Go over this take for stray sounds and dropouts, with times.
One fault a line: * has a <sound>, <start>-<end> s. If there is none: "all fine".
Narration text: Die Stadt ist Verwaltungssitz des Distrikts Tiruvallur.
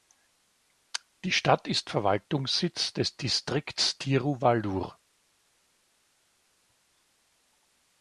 all fine